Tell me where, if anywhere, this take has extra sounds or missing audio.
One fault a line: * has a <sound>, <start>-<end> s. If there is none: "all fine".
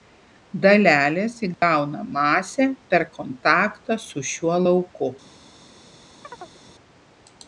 * has a dropout, 1.5-1.6 s
* has a chirp, 6.2-6.6 s